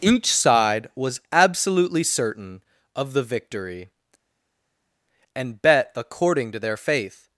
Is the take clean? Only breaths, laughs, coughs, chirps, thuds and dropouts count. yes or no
yes